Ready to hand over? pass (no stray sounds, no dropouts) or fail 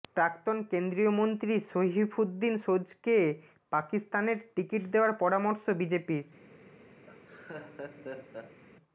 fail